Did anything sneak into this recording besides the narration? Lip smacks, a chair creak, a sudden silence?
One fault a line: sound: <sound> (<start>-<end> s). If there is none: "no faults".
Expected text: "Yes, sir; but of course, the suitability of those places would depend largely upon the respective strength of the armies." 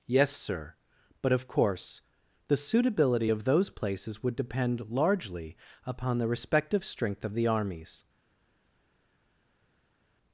no faults